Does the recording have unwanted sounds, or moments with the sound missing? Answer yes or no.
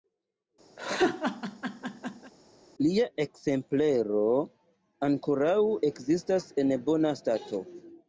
yes